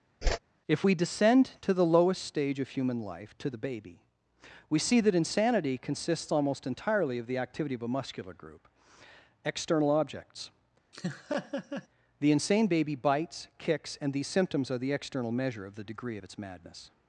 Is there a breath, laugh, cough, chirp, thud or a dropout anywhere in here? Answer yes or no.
yes